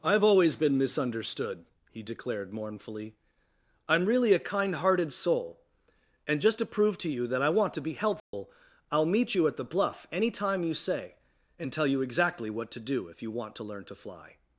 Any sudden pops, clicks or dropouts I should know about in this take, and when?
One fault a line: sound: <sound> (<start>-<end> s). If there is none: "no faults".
sound: dropout (8.2-8.3 s)